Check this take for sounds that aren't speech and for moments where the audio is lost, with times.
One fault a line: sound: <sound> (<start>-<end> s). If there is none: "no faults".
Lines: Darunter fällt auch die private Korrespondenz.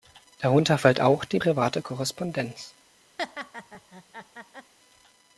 sound: laugh (3.2-4.7 s)